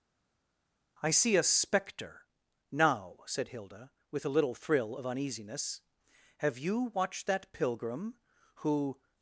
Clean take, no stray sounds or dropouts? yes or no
yes